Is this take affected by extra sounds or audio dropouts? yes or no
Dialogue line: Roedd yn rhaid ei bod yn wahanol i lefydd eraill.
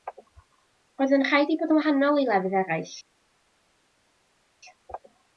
no